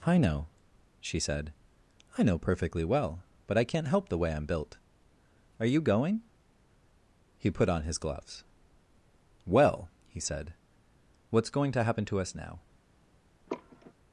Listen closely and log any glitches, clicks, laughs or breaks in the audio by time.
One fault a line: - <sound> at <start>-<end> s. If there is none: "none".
- sigh at 13.5-13.9 s